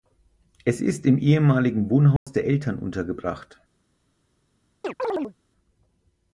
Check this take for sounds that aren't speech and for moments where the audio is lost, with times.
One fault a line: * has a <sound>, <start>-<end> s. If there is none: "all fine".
* has a dropout, 2.2-2.3 s
* has a chirp, 4.8-5.3 s